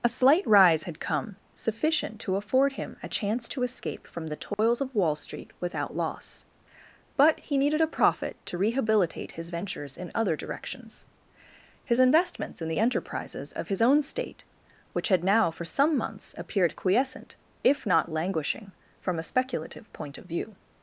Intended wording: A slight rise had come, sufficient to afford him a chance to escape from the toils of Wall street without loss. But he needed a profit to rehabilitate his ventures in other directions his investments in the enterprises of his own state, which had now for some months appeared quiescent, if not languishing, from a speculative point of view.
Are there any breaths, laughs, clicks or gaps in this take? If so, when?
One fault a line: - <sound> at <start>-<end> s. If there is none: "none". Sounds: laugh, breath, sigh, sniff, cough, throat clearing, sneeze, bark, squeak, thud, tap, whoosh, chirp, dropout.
- dropout at 4.5-4.6 s